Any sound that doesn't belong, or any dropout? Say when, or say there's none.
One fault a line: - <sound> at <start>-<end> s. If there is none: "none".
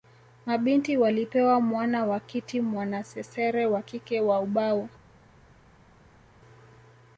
none